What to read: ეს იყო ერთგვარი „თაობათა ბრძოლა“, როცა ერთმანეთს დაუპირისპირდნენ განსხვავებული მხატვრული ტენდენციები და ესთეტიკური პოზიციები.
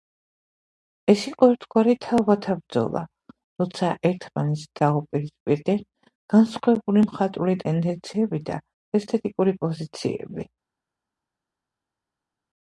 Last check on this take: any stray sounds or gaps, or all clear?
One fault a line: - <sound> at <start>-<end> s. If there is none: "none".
none